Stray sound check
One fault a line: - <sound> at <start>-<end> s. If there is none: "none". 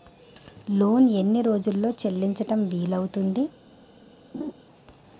- laugh at 4.3-4.5 s